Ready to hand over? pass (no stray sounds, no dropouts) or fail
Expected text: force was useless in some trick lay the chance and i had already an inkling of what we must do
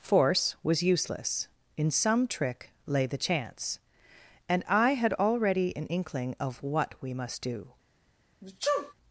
fail